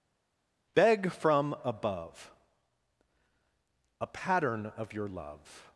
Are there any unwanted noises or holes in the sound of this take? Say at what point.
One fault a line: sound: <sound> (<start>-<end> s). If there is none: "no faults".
no faults